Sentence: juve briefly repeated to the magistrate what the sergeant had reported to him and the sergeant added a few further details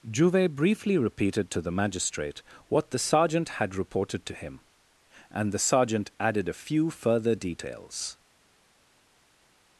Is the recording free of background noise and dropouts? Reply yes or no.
yes